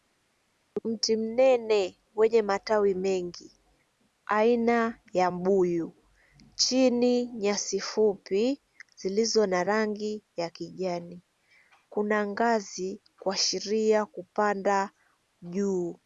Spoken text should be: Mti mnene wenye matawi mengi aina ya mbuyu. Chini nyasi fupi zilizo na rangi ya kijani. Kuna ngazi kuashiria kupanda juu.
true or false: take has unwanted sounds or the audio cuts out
false